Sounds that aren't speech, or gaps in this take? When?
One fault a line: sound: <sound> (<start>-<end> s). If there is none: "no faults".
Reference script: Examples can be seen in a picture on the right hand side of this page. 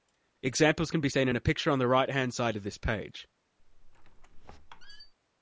sound: squeak (3.6-5.1 s)